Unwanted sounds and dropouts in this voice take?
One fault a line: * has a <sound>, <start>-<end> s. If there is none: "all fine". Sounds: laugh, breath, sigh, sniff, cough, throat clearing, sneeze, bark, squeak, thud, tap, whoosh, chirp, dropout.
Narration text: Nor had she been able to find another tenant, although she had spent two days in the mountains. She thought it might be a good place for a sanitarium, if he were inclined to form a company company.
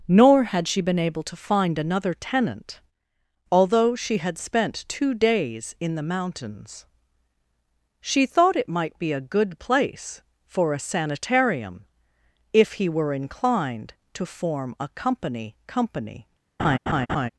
* has a laugh, 16.6-17.3 s